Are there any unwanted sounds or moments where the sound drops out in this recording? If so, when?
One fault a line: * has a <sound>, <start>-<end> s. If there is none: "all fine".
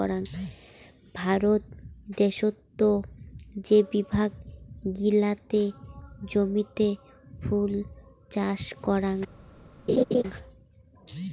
* has a laugh, 9.9-10.2 s